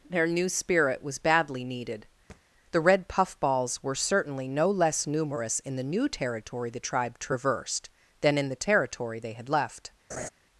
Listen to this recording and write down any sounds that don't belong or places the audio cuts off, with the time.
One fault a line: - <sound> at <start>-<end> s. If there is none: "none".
- thud at 2.3-2.4 s
- laugh at 10.1-10.3 s